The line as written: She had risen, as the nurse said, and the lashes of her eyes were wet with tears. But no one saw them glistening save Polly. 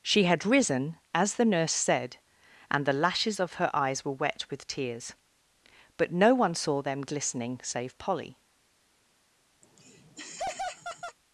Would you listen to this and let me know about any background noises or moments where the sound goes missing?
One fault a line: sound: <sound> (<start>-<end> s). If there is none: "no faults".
sound: laugh (9.6-11.2 s)